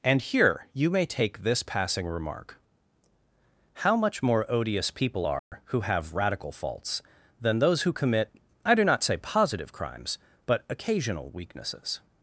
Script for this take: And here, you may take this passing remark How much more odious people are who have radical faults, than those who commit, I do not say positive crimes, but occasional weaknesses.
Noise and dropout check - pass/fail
fail